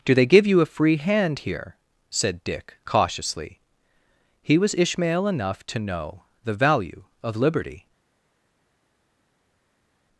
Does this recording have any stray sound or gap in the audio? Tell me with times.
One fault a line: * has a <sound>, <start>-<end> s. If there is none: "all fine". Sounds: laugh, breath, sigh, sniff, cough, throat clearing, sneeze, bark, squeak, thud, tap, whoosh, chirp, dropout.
all fine